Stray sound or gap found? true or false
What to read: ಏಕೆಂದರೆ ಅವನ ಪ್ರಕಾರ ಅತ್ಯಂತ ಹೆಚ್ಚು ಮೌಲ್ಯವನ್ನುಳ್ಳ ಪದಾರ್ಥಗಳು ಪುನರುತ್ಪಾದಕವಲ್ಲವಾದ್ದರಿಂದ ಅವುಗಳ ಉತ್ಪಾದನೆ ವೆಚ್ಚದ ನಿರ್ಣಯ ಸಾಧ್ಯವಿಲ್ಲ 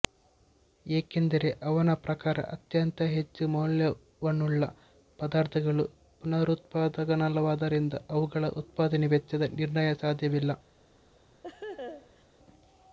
true